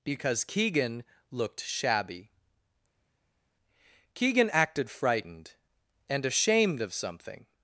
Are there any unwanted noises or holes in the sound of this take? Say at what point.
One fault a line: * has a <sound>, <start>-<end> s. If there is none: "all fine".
all fine